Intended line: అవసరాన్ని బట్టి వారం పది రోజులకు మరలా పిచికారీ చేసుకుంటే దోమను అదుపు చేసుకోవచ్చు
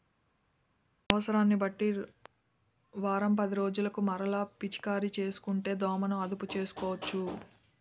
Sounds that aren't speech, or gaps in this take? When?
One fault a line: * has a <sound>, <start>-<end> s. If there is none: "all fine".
all fine